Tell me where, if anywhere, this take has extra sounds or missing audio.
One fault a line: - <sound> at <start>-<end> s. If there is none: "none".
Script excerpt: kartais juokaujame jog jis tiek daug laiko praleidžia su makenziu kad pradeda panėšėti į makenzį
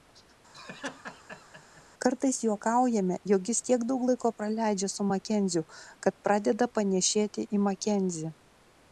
- laugh at 0.5-1.8 s